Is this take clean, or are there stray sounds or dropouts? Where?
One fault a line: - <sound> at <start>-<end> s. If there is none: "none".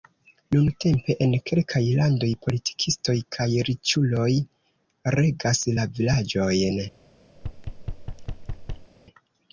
- thud at 7.3-8.9 s